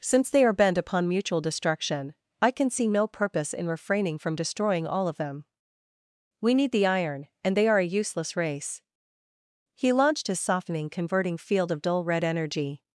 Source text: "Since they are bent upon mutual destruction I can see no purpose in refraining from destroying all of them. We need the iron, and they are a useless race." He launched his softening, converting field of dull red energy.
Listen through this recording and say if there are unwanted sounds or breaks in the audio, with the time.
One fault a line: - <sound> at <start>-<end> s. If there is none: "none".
none